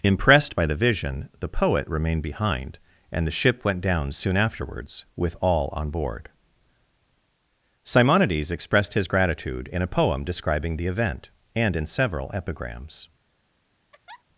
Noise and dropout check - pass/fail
fail